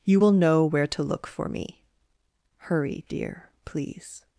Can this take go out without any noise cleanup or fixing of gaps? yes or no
yes